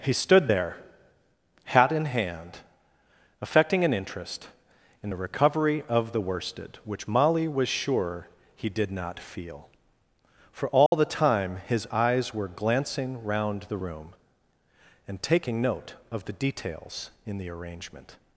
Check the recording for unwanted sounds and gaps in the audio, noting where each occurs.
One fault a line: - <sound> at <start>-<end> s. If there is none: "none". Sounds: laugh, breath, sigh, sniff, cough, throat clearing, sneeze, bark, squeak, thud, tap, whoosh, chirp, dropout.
- dropout at 10.9-10.9 s